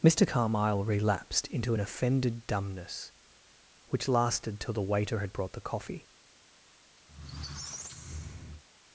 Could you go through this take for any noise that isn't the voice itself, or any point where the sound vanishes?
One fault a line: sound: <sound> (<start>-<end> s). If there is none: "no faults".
sound: squeak (7.1-8.6 s)